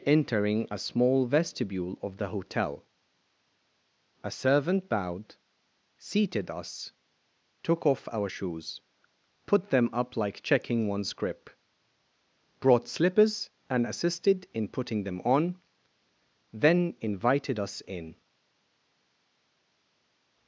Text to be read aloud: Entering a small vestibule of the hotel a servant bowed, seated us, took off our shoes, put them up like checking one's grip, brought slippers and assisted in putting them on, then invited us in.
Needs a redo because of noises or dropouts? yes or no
no